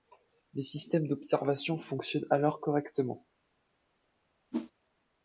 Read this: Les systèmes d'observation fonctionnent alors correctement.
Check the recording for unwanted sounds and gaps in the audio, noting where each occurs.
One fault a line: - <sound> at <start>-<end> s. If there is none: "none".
- whoosh at 4.5-4.7 s